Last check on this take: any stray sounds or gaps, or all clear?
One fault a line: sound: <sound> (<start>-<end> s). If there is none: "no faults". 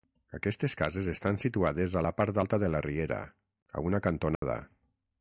sound: dropout (4.4-4.4 s)